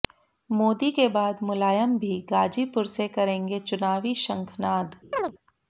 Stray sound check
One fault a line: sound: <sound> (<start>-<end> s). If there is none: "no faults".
sound: chirp (5.1-5.3 s)